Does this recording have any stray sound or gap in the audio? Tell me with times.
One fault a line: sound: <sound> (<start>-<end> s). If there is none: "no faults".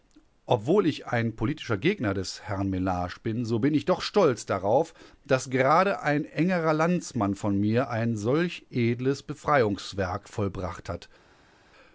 no faults